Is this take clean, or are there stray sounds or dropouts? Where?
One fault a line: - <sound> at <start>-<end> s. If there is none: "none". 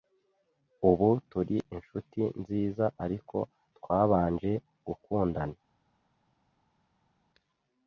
none